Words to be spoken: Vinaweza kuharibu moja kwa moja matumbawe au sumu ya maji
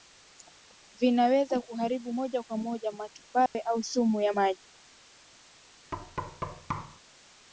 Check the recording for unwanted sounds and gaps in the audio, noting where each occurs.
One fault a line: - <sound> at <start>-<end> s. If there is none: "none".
- dropout at 3.5-3.6 s
- thud at 5.9-7.0 s